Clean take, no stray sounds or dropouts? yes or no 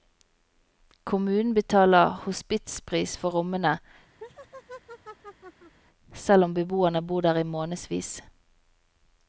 no